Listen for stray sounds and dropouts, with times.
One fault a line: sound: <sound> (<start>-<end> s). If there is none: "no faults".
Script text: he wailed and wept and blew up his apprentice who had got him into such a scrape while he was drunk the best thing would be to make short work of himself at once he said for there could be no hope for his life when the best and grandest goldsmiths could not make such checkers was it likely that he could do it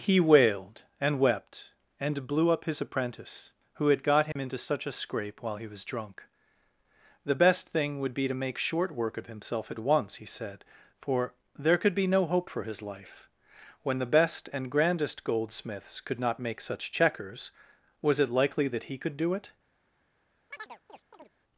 sound: dropout (4.3-4.4 s)
sound: chirp (20.5-21.3 s)